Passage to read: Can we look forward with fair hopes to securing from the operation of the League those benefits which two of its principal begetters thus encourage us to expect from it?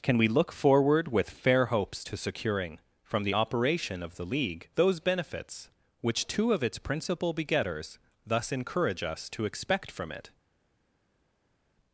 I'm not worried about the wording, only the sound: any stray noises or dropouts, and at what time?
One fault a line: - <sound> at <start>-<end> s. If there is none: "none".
none